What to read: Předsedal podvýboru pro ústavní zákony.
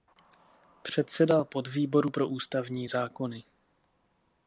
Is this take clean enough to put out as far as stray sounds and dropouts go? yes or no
yes